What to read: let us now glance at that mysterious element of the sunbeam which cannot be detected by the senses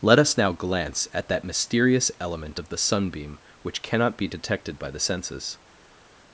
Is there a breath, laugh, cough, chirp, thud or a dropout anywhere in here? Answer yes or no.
no